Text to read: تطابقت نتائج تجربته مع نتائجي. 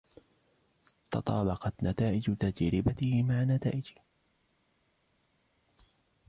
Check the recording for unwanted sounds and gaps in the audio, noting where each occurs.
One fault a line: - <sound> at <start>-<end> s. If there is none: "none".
none